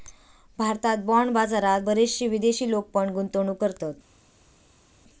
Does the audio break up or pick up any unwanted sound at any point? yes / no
no